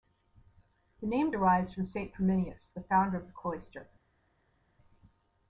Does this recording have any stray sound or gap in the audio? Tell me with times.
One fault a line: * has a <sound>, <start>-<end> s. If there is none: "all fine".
all fine